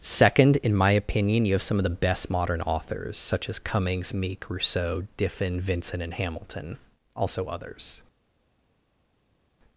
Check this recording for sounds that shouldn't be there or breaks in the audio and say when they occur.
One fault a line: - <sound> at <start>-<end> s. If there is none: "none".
none